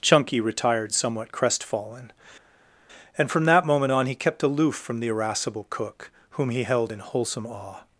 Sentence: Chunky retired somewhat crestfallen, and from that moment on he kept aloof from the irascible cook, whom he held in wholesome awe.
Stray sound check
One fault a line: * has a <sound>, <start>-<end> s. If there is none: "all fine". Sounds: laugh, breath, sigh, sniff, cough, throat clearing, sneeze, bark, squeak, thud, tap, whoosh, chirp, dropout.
all fine